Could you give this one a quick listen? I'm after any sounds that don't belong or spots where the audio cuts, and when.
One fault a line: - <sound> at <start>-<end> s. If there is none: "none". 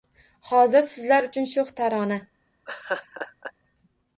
- laugh at 2.7-3.5 s